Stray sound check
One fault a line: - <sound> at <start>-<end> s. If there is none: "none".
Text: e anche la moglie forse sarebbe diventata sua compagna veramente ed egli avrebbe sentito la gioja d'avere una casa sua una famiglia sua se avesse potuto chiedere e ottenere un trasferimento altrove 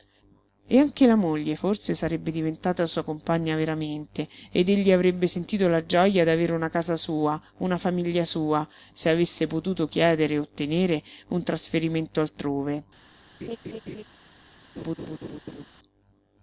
- laugh at 13.4-14.0 s
- laugh at 14.8-15.6 s